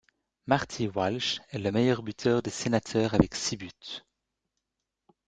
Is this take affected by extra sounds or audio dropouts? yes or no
no